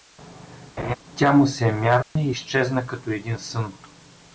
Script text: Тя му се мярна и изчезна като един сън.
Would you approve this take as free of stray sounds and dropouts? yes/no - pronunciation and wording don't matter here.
no